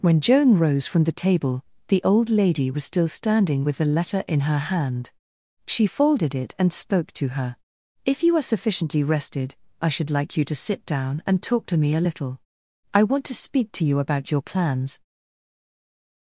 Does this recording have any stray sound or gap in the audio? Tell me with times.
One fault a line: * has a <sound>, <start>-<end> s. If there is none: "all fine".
all fine